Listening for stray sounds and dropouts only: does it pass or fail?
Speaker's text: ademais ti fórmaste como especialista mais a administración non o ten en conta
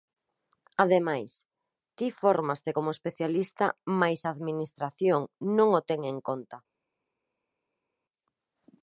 pass